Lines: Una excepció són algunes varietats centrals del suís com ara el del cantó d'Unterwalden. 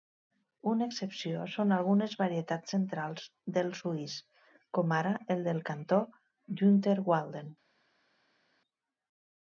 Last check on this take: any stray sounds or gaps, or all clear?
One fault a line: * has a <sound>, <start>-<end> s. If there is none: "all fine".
all fine